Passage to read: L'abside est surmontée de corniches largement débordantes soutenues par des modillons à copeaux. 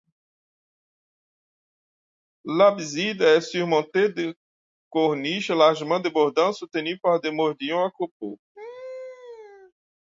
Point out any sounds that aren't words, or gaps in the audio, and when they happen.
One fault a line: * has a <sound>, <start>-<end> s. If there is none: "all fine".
* has a laugh, 8.5-9.7 s